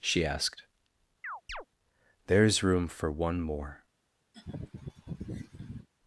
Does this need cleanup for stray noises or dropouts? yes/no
yes